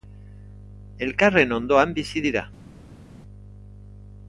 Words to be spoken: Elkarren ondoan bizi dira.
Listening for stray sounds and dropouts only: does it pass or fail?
pass